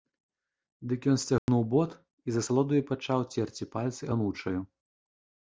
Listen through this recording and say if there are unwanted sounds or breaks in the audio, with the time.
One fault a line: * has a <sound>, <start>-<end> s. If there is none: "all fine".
* has a dropout, 1.4-1.5 s